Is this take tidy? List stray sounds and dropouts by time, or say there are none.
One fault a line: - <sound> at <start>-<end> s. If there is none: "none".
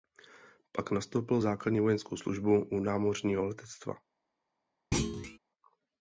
- thud at 4.9-5.4 s